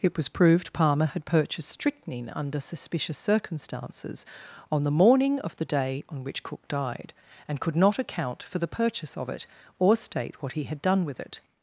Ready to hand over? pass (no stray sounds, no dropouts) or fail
pass